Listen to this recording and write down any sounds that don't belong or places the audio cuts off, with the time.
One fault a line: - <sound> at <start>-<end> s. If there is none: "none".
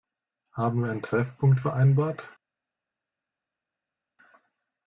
none